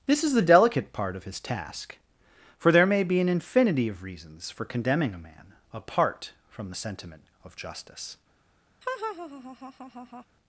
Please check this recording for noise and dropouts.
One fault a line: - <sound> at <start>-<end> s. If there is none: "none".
- laugh at 8.8-10.3 s